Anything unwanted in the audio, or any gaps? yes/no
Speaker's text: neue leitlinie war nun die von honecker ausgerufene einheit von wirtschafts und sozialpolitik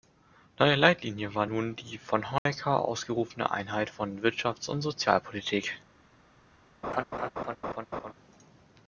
yes